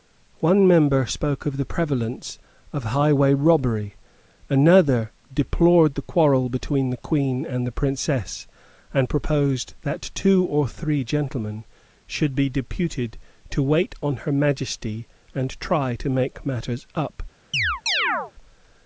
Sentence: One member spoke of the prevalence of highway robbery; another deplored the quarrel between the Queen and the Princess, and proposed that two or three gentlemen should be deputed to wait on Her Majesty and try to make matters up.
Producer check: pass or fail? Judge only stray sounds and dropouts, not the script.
fail